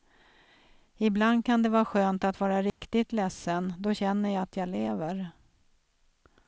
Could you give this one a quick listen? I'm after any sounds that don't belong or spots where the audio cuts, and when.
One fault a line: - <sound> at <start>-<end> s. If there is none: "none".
- dropout at 2.7-2.8 s